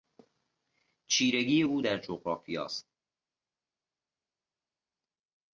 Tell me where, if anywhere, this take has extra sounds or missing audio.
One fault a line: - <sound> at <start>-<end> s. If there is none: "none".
none